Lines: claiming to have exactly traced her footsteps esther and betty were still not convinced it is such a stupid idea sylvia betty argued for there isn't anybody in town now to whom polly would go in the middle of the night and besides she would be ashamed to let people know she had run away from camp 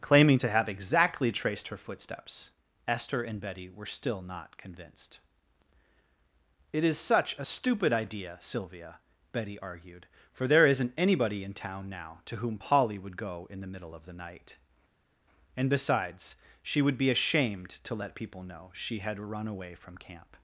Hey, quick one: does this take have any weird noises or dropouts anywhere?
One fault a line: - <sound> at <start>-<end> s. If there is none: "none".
none